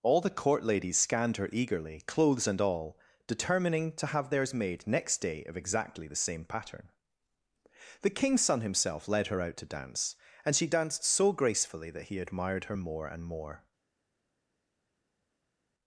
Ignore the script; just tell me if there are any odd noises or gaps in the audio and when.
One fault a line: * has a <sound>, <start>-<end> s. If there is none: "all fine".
all fine